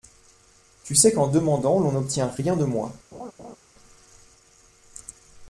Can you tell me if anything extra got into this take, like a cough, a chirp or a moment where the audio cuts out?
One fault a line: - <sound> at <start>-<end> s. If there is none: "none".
- laugh at 3.1-3.6 s